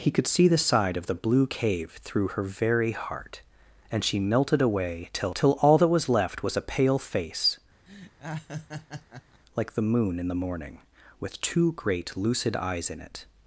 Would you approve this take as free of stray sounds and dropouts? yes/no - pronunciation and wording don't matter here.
no